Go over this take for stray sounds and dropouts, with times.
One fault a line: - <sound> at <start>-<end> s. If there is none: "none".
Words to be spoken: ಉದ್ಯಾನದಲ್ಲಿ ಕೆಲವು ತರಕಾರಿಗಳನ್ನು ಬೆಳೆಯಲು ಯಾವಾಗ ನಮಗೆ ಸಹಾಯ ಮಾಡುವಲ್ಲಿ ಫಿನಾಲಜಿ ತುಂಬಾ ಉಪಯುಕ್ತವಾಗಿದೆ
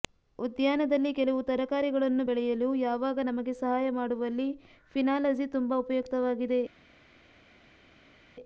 none